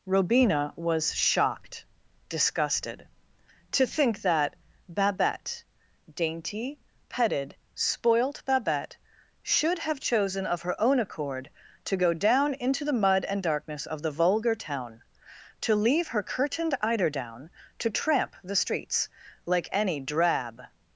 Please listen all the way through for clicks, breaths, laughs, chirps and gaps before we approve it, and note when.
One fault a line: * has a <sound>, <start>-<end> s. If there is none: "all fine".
all fine